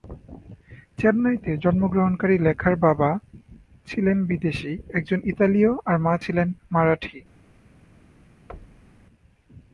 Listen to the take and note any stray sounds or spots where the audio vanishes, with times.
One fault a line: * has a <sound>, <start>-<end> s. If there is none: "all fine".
* has a thud, 8.5-9.1 s